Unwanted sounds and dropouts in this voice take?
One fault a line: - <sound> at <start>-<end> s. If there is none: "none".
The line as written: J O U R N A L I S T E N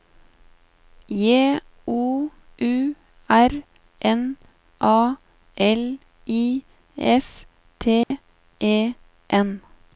- dropout at 8.0-8.1 s